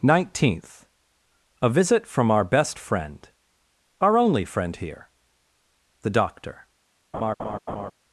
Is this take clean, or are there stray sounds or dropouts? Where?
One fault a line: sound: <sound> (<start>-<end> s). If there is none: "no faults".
sound: laugh (7.1-7.9 s)